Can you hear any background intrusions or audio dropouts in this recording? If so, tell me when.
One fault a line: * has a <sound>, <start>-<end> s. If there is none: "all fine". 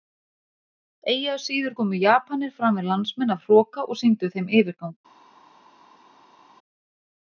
all fine